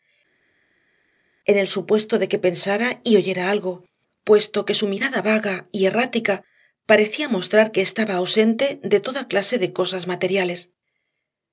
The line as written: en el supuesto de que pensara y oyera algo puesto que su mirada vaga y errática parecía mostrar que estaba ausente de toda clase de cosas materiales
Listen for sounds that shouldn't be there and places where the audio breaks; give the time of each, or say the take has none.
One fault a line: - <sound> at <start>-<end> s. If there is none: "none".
none